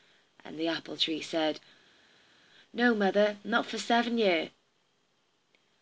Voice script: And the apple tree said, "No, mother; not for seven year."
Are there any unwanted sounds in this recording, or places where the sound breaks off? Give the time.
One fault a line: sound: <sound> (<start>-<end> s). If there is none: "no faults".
no faults